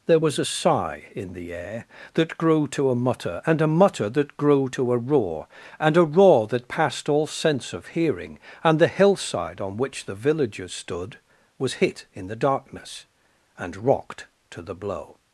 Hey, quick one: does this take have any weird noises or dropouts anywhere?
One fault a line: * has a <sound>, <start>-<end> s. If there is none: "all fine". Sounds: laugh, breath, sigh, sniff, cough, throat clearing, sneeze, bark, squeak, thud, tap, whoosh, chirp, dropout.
all fine